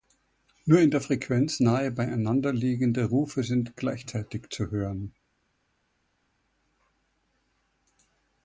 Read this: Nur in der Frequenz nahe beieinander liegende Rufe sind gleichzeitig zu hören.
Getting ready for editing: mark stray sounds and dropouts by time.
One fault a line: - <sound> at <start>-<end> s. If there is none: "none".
none